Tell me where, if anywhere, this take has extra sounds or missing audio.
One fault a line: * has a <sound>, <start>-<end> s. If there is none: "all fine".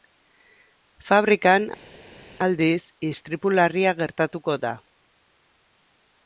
all fine